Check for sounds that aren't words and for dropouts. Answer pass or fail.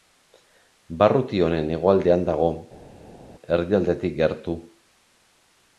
pass